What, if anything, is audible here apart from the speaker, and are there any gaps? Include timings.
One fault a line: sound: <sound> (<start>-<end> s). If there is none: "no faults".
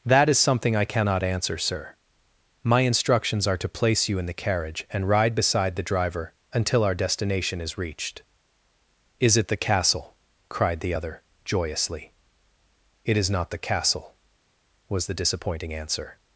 no faults